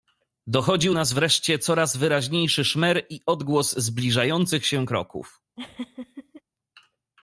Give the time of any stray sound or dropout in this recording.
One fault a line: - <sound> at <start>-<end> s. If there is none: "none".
- laugh at 5.6-6.4 s